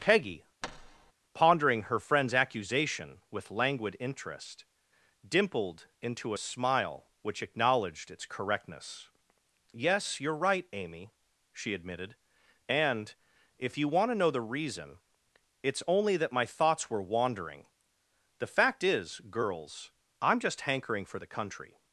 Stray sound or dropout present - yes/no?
yes